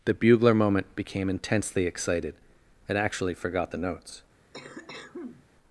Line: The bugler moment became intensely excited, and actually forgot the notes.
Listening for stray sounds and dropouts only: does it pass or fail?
fail